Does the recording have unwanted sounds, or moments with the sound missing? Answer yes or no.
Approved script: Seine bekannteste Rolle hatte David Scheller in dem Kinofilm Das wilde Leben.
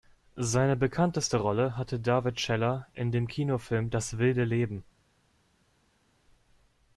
no